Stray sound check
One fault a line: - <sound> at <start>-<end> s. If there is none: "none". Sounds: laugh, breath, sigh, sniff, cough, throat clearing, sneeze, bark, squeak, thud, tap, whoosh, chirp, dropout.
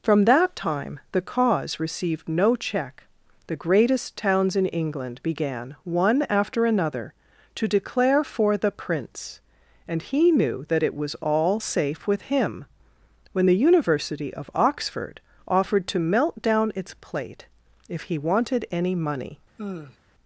- sigh at 19.6-20.0 s